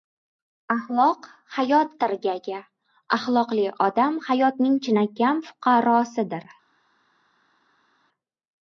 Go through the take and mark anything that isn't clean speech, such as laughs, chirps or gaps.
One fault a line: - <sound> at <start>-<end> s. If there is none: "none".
none